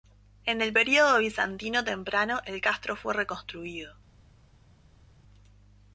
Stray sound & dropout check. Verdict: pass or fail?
pass